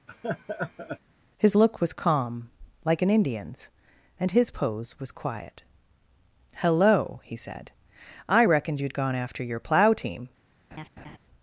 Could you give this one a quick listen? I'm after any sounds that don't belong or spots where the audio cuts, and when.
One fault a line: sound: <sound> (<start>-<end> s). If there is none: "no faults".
sound: laugh (0.1-1.0 s)
sound: laugh (10.7-11.2 s)